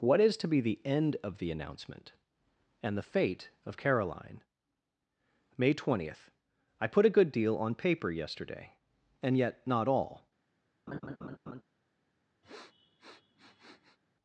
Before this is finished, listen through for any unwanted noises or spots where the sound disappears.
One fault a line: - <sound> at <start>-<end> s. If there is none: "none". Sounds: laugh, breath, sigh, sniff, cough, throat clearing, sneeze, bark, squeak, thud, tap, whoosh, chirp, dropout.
- laugh at 10.9-11.6 s
- sniff at 12.4-14.0 s